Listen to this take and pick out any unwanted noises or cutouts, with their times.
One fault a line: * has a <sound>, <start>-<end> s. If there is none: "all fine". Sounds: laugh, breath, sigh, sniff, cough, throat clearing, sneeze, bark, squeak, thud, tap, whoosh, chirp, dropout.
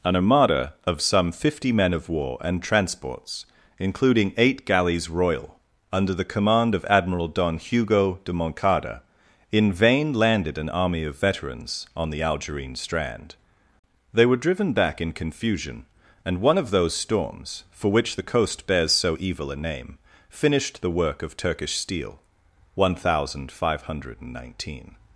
all fine